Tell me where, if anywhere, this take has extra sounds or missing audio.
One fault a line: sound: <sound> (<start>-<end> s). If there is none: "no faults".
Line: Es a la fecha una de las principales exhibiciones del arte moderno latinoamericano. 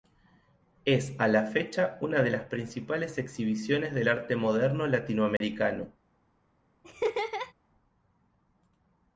sound: dropout (5.4-5.4 s)
sound: laugh (6.8-7.5 s)